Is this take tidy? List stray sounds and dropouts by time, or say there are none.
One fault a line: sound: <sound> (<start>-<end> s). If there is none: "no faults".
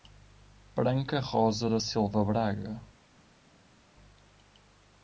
no faults